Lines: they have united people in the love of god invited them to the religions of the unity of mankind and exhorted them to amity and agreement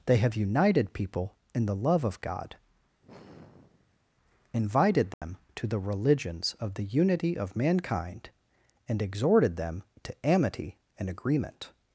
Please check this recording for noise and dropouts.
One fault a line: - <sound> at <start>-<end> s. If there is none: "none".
- sigh at 3.0-4.1 s
- dropout at 5.1-5.2 s